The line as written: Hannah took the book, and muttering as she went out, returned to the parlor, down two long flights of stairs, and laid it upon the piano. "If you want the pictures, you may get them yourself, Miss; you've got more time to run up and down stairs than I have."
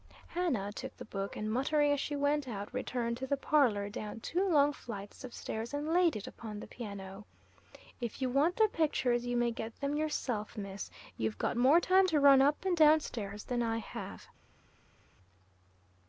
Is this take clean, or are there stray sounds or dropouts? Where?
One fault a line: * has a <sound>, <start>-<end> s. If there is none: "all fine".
all fine